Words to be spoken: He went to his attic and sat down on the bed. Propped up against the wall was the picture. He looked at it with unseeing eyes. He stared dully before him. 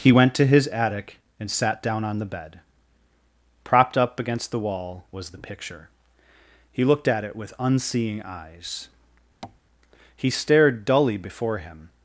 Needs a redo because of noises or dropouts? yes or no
yes